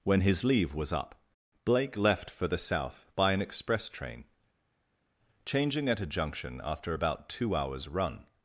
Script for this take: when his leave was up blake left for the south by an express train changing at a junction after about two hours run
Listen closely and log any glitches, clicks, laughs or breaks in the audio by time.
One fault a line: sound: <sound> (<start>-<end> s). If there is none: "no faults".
no faults